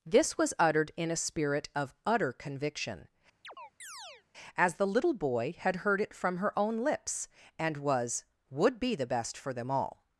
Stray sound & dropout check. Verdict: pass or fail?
fail